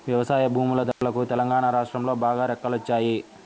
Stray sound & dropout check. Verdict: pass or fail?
fail